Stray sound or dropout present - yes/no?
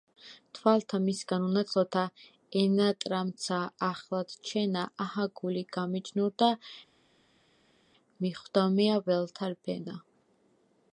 no